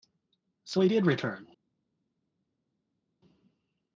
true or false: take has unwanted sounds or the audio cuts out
false